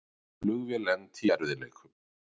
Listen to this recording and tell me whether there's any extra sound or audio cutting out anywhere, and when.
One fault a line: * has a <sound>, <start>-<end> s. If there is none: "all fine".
all fine